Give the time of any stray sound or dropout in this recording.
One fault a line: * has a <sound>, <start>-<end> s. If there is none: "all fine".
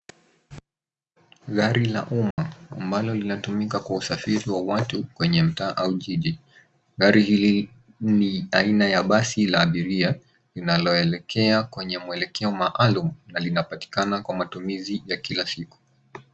* has a dropout, 2.3-2.4 s